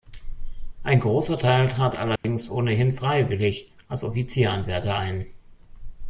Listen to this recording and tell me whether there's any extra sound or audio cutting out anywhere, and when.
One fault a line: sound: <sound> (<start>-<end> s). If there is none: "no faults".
sound: dropout (2.2-2.2 s)